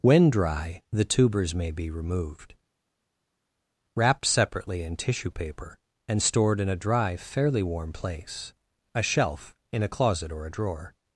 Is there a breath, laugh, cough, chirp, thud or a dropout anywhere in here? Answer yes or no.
no